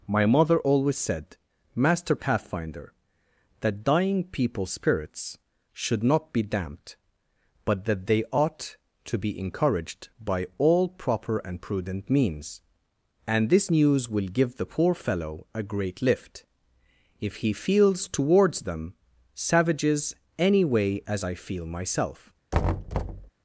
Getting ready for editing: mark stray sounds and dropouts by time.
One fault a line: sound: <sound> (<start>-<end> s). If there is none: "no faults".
sound: thud (22.5-23.3 s)